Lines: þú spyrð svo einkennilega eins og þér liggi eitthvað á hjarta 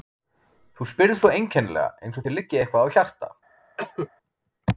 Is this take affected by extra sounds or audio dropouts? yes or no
yes